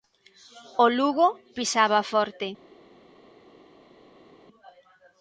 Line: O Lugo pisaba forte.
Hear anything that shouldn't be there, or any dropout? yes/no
no